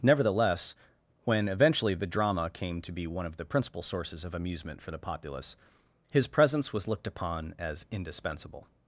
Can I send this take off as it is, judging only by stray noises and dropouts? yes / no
yes